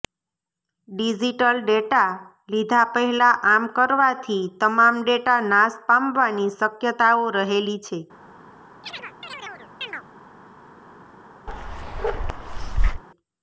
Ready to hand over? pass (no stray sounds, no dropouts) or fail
fail